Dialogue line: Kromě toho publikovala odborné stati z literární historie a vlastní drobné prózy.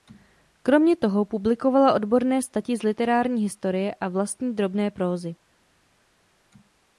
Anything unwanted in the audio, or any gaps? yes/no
no